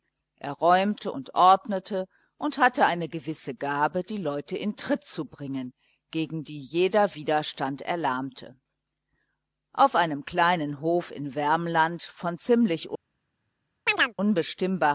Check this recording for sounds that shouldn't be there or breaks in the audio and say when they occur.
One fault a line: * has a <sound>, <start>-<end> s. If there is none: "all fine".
* has a chirp, 13.9-14.1 s